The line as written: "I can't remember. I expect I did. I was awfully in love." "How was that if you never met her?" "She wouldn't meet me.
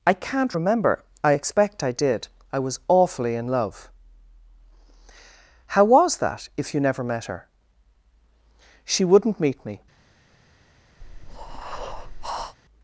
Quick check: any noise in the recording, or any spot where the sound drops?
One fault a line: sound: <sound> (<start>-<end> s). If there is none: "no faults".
sound: breath (11.0-12.6 s)